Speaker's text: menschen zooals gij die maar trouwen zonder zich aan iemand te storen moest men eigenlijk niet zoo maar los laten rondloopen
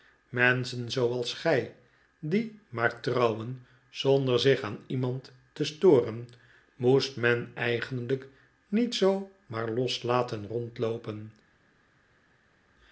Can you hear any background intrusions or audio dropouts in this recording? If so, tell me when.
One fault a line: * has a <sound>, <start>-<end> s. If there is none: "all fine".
all fine